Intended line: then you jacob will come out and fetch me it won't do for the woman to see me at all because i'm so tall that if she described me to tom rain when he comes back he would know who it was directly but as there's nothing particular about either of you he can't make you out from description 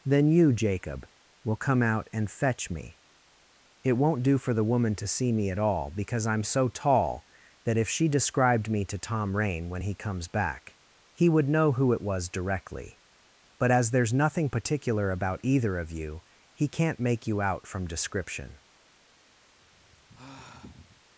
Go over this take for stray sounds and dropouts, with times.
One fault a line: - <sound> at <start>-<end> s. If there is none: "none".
- sigh at 19.6-21.0 s